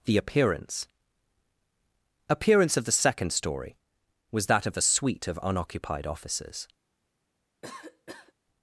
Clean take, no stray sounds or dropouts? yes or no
no